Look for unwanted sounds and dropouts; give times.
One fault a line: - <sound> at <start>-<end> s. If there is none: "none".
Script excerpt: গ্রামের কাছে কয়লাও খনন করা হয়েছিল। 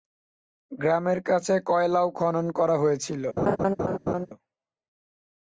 - laugh at 3.4-4.3 s